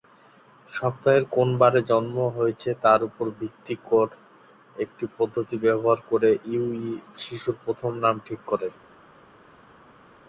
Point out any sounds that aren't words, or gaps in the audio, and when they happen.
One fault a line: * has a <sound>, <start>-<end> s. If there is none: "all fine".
all fine